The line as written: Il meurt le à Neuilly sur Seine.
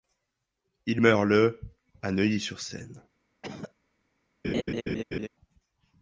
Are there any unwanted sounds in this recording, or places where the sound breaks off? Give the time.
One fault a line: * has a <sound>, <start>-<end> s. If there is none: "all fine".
* has a cough, 3.4-3.7 s
* has a laugh, 4.4-5.3 s